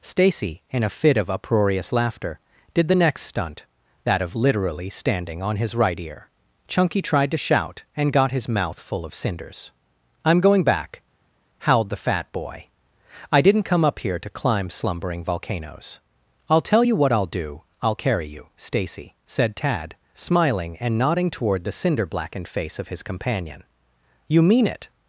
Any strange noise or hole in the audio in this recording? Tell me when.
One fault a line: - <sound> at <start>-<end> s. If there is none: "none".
none